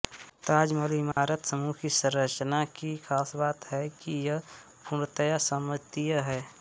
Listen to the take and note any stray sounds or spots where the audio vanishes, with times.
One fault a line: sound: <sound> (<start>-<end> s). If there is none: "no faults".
sound: dropout (1.1-1.2 s)